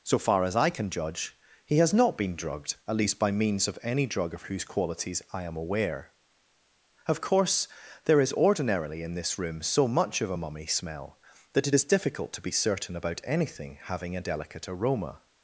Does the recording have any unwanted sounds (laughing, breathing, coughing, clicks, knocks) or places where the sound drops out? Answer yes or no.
no